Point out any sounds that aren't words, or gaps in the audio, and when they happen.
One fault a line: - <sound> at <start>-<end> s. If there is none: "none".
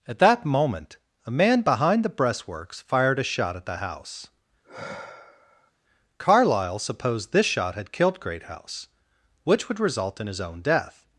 - sigh at 4.6-5.7 s